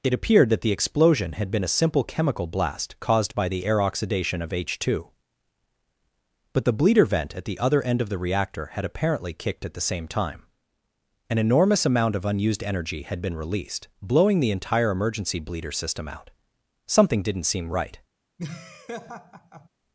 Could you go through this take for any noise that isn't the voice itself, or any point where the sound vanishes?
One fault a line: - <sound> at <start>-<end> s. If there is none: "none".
- laugh at 18.4-19.7 s